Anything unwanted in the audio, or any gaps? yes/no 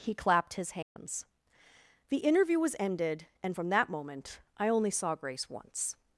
yes